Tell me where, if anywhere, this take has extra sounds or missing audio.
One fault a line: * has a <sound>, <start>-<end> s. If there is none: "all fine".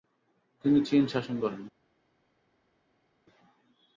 all fine